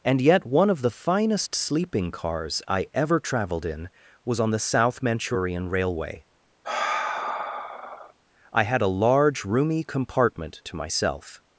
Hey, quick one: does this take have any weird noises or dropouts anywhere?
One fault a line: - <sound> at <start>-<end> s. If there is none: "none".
- sigh at 6.6-8.1 s